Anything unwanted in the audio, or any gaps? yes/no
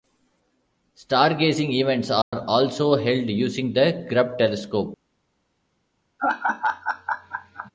yes